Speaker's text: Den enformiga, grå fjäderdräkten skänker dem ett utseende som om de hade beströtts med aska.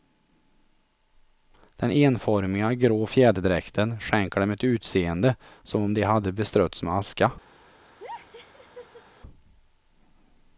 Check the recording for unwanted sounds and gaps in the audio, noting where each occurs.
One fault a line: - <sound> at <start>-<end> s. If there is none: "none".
- laugh at 8.0-9.0 s